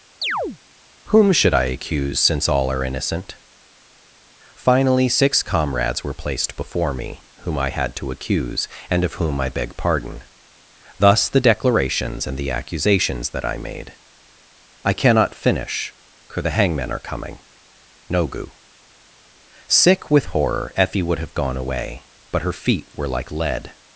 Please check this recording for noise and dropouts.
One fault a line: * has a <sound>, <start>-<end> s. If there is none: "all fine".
* has a chirp, 0.2-0.6 s